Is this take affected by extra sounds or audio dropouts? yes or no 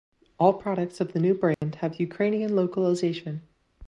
yes